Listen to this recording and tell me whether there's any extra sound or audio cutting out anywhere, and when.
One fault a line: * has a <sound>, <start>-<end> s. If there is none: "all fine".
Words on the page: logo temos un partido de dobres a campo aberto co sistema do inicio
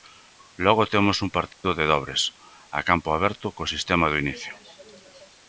* has a dropout, 1.5-1.6 s